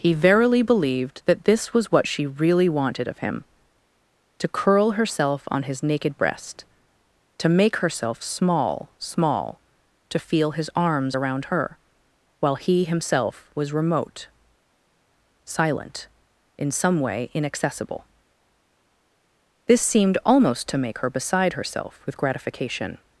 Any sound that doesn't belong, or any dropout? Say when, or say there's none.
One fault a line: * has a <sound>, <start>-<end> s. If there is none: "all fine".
all fine